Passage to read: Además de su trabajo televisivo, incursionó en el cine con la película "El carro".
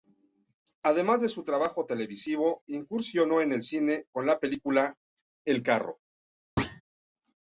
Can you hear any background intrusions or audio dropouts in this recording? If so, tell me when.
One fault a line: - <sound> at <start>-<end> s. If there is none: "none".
- thud at 6.6-6.8 s